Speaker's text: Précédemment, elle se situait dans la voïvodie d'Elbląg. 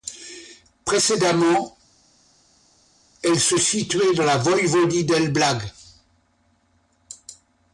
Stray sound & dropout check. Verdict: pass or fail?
pass